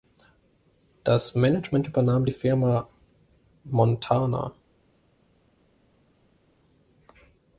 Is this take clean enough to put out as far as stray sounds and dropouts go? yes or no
yes